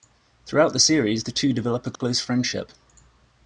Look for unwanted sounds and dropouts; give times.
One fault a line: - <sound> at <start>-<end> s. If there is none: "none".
- dropout at 2.0-2.0 s